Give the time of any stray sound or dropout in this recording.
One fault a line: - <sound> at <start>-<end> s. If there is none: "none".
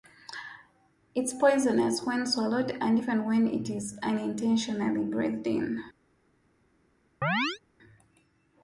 - chirp at 7.2-7.6 s